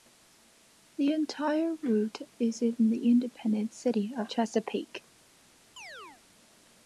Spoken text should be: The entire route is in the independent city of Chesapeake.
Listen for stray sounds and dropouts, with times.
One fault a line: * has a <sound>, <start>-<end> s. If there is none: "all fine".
* has a chirp, 5.8-6.2 s